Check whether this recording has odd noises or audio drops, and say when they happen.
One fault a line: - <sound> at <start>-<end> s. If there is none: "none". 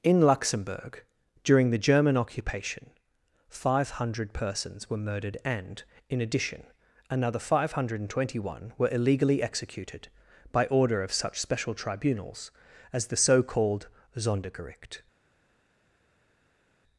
none